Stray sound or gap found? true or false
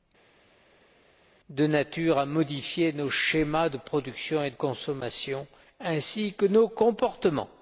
false